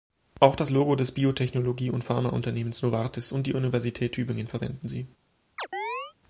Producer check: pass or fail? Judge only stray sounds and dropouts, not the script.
fail